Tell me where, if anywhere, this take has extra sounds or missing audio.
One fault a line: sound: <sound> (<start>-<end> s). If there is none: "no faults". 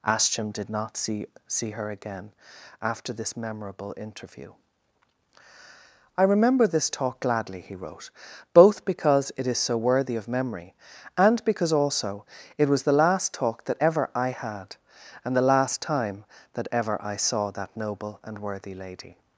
no faults